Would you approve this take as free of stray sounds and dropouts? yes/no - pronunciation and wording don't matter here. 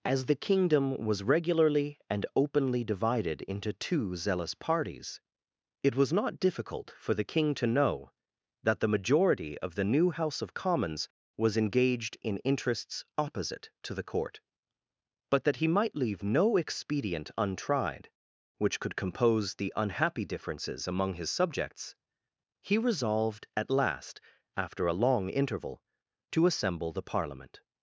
yes